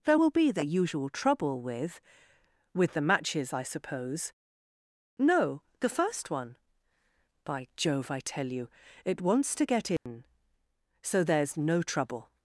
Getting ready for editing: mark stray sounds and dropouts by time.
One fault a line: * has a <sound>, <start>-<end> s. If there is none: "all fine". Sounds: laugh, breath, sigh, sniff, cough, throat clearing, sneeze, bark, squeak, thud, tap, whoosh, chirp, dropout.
* has a dropout, 10.0-10.1 s